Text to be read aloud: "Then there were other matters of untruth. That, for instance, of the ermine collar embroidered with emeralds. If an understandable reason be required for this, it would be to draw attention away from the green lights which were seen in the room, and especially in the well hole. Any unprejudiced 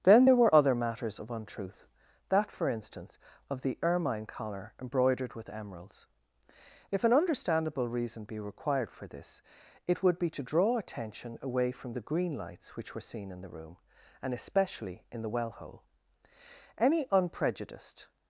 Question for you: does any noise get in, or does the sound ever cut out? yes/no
no